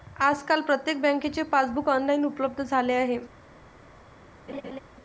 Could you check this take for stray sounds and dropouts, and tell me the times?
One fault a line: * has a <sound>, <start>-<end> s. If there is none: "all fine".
* has a laugh, 4.5-4.8 s